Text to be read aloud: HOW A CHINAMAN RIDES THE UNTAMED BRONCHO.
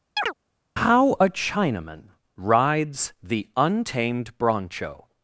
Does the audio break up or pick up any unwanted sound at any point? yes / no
yes